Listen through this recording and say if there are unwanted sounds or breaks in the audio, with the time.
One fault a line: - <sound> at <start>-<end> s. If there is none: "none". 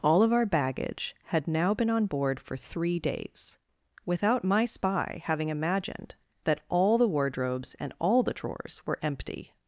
none